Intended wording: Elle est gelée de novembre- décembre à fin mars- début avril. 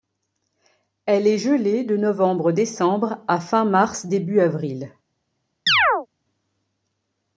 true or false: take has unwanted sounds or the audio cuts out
true